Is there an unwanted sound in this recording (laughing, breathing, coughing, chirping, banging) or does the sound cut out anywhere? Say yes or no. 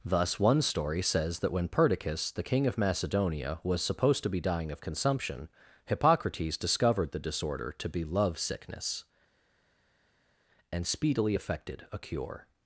no